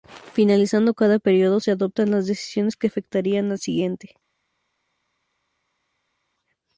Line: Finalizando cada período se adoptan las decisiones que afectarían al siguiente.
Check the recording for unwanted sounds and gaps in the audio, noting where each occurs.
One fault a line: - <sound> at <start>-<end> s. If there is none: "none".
none